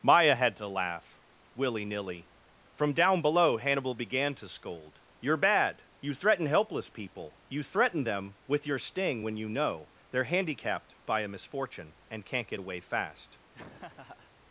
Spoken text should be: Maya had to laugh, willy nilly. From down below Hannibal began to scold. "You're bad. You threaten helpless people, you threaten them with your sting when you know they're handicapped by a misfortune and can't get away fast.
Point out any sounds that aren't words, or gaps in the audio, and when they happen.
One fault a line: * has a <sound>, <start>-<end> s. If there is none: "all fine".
* has a laugh, 13.5-14.3 s